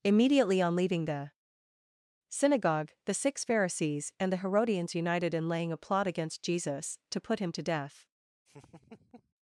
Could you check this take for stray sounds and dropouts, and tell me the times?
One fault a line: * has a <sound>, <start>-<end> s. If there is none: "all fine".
* has a laugh, 8.5-9.3 s